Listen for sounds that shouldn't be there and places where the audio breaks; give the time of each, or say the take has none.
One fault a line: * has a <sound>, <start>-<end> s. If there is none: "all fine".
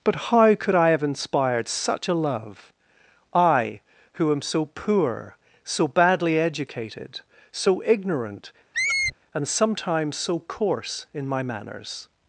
* has a squeak, 8.7-9.2 s